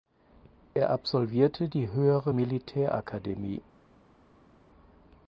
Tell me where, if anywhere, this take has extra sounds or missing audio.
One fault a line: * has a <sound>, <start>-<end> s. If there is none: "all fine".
all fine